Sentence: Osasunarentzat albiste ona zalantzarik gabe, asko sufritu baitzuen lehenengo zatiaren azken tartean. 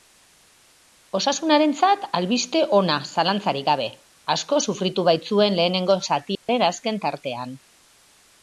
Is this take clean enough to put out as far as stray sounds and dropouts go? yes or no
no